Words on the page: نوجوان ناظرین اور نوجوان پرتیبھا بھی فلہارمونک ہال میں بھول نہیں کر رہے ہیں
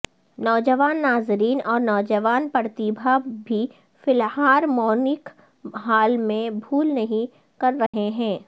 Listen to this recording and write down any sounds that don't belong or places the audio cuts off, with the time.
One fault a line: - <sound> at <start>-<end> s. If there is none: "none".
- dropout at 7.9-7.9 s